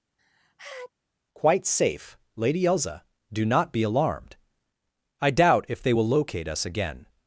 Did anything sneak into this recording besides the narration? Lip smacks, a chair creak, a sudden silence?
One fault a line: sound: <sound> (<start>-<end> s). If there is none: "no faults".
sound: sneeze (0.2-0.9 s)